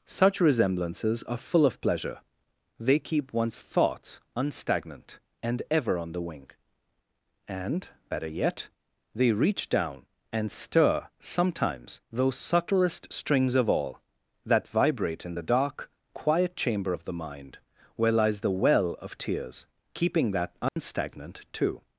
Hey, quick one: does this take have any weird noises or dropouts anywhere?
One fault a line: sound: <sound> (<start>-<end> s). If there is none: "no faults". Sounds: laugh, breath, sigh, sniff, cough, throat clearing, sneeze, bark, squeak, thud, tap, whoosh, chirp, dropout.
sound: dropout (20.7-20.8 s)